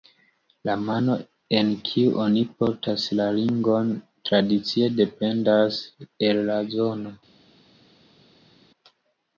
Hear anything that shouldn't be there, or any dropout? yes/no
no